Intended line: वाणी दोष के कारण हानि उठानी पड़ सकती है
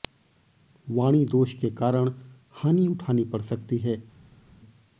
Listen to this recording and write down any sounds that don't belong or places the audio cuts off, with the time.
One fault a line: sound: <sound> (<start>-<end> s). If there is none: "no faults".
no faults